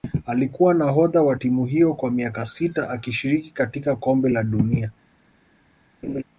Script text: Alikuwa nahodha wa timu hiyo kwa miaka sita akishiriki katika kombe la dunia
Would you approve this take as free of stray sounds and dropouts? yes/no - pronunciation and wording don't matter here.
no